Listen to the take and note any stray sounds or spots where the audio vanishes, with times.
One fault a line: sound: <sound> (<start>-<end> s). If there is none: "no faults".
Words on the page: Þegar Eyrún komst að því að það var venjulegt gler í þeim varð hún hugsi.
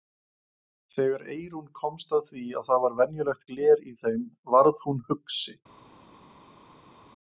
no faults